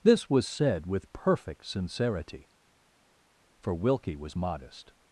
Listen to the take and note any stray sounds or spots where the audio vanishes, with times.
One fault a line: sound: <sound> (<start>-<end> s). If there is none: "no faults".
no faults